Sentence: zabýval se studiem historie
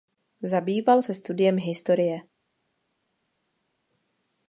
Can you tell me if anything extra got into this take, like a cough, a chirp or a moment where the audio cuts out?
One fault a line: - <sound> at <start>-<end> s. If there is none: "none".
none